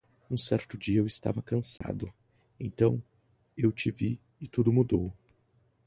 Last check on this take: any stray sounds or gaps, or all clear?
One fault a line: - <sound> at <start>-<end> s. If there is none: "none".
- dropout at 1.8-1.8 s